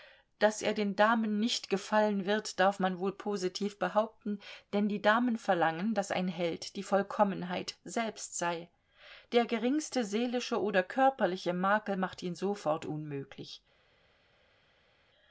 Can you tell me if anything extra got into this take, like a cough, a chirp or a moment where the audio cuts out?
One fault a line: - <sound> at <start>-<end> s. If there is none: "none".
none